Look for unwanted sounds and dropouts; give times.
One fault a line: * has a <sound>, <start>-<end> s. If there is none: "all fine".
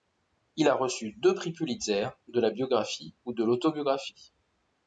all fine